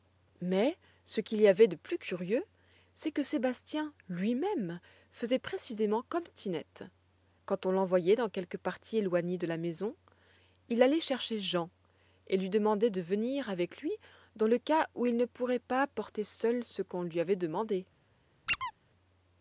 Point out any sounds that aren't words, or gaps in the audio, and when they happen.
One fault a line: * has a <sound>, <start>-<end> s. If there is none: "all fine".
* has a squeak, 18.5-18.7 s